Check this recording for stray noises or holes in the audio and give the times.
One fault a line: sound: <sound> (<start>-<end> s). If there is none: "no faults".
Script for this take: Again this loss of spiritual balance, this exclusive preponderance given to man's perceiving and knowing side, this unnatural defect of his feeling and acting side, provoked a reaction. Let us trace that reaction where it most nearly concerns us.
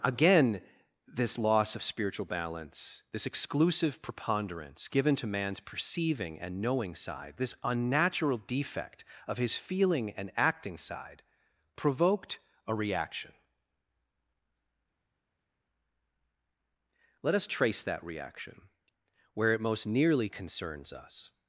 no faults